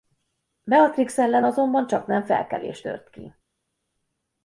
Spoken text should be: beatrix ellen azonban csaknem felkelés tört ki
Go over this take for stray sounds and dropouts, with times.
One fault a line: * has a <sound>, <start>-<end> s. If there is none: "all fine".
all fine